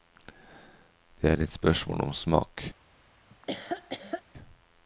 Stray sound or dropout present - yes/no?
yes